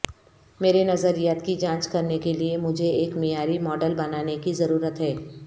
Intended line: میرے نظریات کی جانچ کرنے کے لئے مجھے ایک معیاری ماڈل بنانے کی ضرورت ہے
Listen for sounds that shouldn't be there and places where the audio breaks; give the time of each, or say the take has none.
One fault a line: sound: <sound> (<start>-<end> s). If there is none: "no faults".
no faults